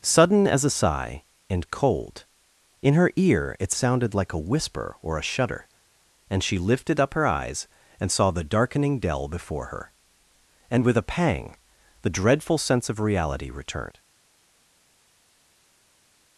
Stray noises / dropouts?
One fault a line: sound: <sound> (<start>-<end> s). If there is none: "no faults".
no faults